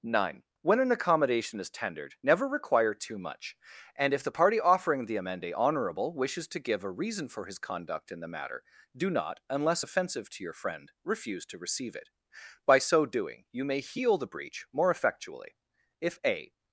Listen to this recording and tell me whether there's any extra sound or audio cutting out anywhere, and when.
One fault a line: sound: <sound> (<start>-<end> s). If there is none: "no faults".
no faults